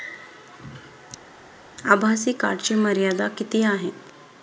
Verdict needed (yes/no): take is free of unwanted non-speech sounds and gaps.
yes